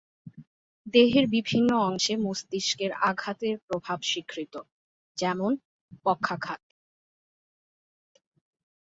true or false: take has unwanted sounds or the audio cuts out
false